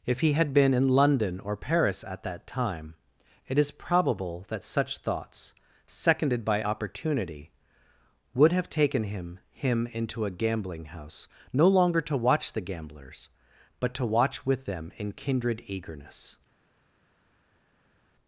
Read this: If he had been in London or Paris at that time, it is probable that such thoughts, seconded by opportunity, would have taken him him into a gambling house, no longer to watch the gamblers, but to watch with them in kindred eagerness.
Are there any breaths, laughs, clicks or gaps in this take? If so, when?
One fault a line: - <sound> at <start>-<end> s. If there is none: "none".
none